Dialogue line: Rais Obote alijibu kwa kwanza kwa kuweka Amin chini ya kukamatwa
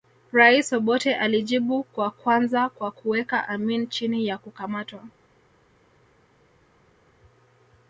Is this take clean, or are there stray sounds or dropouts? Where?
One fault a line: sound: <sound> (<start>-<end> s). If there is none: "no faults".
no faults